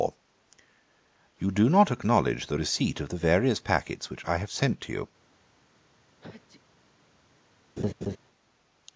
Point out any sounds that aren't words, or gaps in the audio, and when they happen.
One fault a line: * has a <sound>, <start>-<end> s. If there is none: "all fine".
* has a sneeze, 6.2-6.6 s
* has a laugh, 7.8-8.2 s